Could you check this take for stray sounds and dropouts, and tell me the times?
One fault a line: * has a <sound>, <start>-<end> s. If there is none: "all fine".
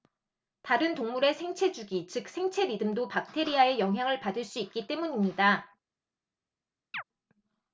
* has a chirp, 6.9-7.0 s